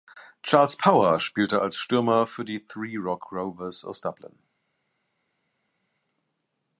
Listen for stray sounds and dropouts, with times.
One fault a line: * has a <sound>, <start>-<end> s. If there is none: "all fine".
all fine